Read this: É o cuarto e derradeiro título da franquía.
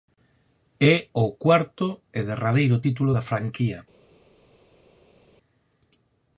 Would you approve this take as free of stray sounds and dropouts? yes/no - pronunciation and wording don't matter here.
yes